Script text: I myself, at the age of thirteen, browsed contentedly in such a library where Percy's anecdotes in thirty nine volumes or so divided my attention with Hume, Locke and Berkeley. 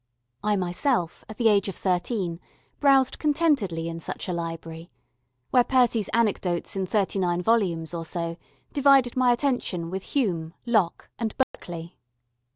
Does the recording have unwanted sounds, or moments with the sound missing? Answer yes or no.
yes